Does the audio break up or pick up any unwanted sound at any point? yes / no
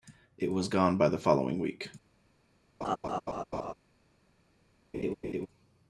yes